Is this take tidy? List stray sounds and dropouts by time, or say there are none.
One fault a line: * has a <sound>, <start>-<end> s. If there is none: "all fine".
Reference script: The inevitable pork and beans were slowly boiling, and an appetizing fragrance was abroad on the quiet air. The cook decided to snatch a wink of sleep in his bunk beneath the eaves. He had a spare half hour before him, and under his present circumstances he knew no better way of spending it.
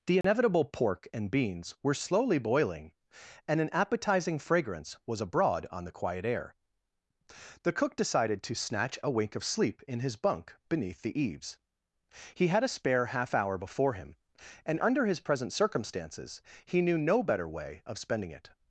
* has a dropout, 0.2-0.2 s